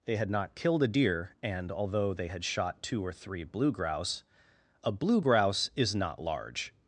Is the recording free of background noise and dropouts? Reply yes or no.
yes